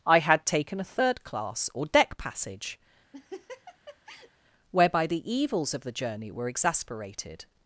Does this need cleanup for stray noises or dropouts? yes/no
yes